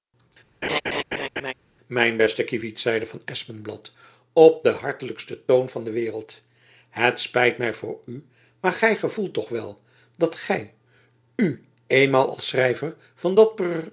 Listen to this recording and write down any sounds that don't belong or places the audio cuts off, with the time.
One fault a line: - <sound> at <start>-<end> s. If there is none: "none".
- laugh at 0.6-1.5 s